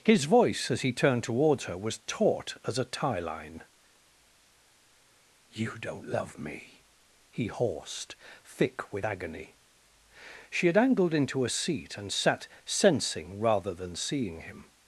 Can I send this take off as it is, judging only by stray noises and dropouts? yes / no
yes